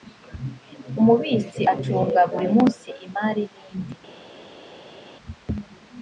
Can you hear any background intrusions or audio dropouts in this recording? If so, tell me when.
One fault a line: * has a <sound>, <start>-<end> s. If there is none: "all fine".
all fine